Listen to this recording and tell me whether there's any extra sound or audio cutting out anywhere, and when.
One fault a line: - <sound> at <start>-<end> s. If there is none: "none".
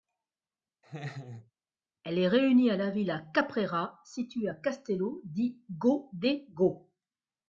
- laugh at 0.8-1.5 s